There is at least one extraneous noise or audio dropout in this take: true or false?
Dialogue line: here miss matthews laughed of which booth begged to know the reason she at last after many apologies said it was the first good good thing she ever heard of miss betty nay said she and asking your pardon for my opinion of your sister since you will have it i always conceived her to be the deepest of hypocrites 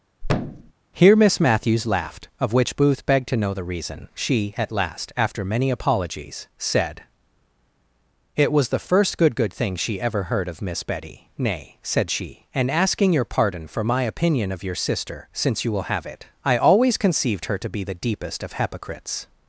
true